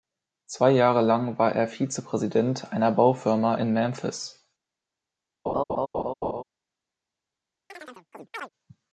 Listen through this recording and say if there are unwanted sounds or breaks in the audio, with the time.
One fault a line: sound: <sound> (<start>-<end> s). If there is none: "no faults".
sound: laugh (5.5-6.4 s)
sound: chirp (7.7-8.5 s)